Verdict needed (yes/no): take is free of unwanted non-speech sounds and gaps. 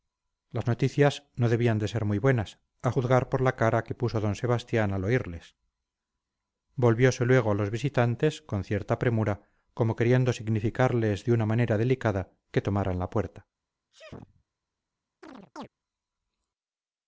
no